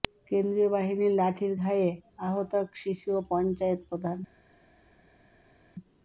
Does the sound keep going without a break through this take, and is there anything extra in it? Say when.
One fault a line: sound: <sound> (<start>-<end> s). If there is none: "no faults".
no faults